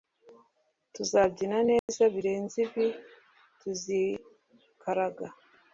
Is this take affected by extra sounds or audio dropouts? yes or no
yes